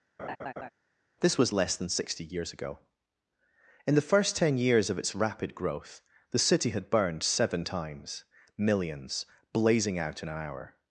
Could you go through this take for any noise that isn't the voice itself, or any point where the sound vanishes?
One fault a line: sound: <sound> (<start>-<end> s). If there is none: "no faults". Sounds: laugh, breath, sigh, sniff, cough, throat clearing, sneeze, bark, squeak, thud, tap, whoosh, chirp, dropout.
sound: laugh (0.2-0.7 s)